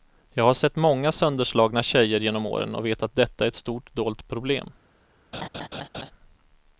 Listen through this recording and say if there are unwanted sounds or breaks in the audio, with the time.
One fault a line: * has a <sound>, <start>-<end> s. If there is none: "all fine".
* has a laugh, 5.3-6.1 s